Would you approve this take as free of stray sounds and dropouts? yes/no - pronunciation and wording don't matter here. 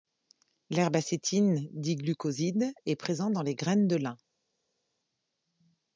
yes